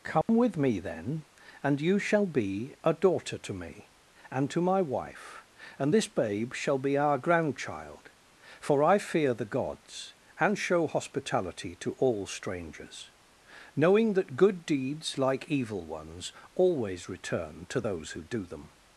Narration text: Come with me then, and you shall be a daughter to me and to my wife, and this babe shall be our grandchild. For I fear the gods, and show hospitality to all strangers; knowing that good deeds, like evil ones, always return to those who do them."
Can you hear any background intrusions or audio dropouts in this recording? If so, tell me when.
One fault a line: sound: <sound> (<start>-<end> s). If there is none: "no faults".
sound: dropout (0.2-0.3 s)